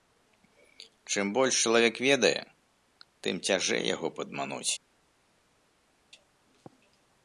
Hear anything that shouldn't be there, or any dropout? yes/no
no